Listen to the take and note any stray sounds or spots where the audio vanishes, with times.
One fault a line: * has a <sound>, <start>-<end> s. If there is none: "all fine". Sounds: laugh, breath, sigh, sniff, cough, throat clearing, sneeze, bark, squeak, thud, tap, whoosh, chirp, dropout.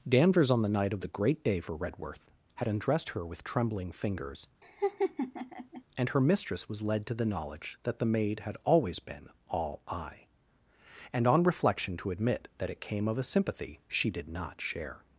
* has a laugh, 4.6-5.8 s